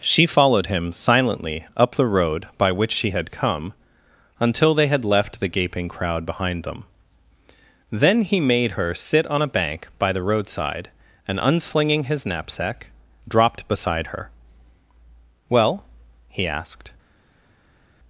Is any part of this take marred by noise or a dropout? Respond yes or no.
no